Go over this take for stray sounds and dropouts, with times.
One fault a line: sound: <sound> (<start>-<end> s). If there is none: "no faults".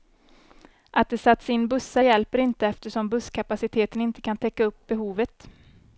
no faults